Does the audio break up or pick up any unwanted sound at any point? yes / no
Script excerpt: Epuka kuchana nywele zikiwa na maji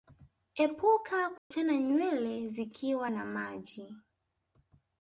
yes